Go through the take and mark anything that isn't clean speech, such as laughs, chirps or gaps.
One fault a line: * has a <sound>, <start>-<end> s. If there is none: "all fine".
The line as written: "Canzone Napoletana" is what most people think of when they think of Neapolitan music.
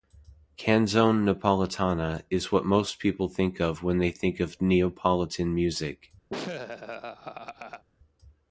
* has a laugh, 6.3-7.8 s